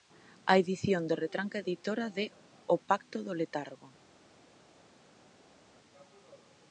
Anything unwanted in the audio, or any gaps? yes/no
no